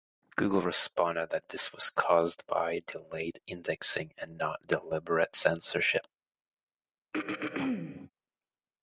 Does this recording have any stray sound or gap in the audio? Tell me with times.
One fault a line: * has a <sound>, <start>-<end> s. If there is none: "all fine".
* has a throat clearing, 7.1-8.1 s